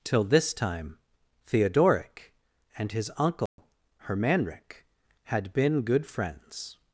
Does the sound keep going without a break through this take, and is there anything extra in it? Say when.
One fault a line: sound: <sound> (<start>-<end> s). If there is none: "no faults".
sound: dropout (3.5-3.6 s)